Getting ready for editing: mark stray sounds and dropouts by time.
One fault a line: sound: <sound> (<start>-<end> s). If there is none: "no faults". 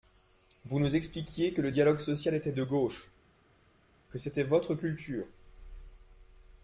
no faults